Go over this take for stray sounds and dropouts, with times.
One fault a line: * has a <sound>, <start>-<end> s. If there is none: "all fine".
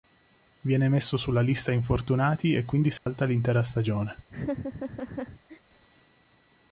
* has a dropout, 3.0-3.1 s
* has a laugh, 4.3-5.6 s